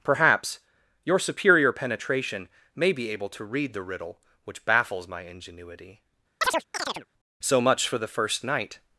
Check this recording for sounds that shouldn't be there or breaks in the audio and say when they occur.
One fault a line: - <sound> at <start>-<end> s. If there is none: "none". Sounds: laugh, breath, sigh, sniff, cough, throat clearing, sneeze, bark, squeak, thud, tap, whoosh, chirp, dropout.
- chirp at 6.4-7.1 s